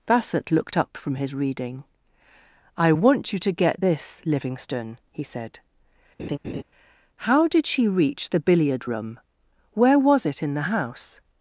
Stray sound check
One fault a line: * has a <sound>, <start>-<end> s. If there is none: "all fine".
* has a laugh, 6.2-6.6 s